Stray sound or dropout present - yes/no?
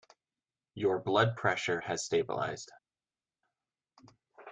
no